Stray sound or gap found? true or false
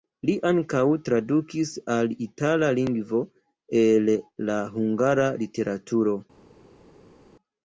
false